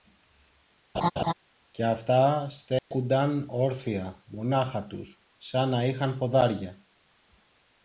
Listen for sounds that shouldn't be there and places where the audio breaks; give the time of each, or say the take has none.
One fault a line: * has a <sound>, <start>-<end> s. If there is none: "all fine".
* has a laugh, 0.9-1.3 s
* has a dropout, 2.8-2.9 s